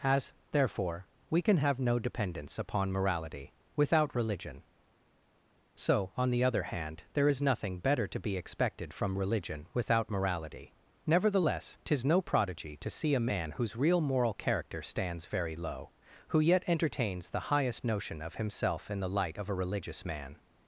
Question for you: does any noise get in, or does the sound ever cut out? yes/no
no